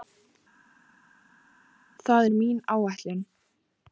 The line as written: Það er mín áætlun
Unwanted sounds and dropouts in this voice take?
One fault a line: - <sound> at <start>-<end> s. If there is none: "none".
none